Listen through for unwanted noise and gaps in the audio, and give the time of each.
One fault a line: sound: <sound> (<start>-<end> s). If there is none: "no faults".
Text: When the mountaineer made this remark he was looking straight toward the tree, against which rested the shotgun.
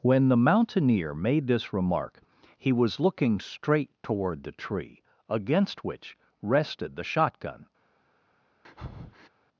sound: breath (8.6-9.3 s)